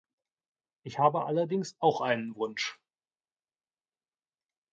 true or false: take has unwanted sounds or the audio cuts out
false